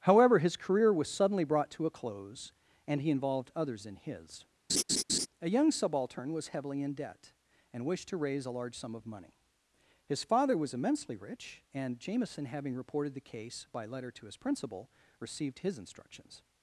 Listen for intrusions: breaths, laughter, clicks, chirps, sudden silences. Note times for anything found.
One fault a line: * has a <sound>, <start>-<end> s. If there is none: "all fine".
* has a laugh, 4.7-5.3 s